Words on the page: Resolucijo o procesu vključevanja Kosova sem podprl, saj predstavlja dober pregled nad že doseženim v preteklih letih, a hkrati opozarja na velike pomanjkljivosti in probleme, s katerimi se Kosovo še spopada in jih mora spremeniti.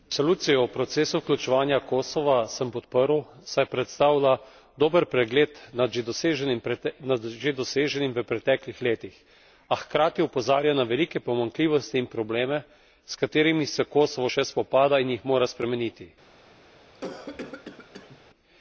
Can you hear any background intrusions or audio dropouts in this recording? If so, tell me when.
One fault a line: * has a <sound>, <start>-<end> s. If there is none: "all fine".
* has a cough, 16.9-18.2 s